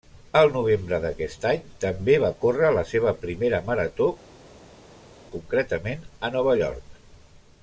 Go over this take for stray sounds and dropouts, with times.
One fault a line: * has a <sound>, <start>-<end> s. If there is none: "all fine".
all fine